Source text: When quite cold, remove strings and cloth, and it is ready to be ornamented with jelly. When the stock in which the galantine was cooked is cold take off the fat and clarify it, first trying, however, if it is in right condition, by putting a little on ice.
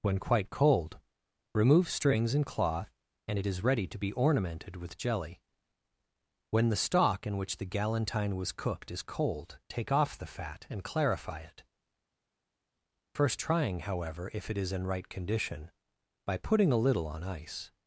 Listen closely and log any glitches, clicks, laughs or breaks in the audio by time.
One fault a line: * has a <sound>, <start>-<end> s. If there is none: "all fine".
all fine